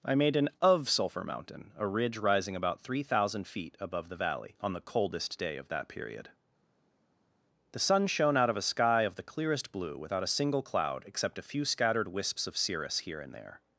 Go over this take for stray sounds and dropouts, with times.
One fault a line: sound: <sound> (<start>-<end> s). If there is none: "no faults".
no faults